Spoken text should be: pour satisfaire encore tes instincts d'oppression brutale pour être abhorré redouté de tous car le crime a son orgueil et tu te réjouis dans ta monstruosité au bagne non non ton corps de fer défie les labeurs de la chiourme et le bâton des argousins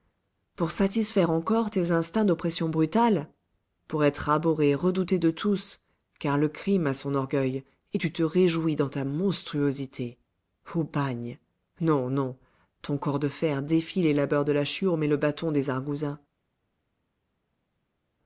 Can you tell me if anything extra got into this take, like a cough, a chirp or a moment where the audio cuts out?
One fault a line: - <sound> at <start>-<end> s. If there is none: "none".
none